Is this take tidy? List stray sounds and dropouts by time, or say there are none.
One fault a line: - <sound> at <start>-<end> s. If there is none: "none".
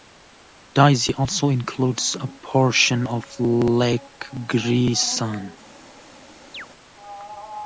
- chirp at 6.5-6.7 s